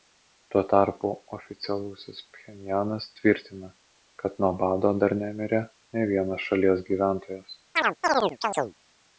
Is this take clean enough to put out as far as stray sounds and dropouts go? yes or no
no